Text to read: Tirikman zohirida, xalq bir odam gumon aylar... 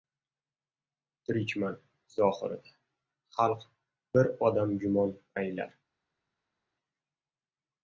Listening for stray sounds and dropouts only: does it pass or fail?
pass